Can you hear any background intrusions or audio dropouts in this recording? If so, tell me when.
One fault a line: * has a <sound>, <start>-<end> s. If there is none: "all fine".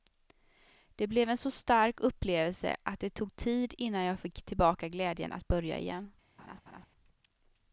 * has a laugh, 6.4-6.9 s